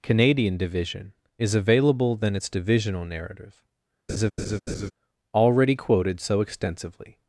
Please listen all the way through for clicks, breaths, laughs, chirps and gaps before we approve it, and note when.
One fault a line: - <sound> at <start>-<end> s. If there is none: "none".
- laugh at 4.1-4.9 s